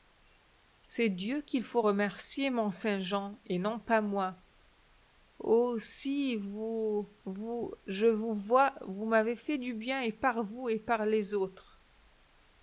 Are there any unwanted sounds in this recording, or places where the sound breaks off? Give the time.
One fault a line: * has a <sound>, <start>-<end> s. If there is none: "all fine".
all fine